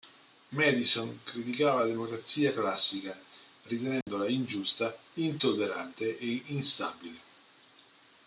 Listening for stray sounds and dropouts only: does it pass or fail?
fail